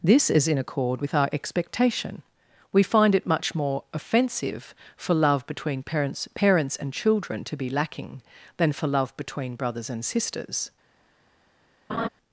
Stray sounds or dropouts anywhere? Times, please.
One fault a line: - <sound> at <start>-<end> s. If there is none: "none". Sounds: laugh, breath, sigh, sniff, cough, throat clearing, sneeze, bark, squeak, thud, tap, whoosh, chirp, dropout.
- laugh at 11.9-12.1 s